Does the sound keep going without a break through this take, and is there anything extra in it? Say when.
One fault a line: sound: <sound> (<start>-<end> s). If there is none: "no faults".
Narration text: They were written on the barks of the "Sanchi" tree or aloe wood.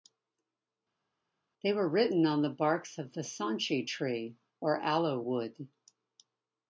no faults